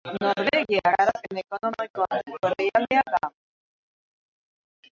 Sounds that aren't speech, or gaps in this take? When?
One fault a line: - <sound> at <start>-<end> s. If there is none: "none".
none